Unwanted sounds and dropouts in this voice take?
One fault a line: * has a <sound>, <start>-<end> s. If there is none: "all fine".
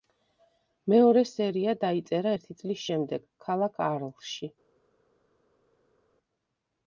all fine